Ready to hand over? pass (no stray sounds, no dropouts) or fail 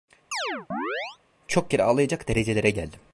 fail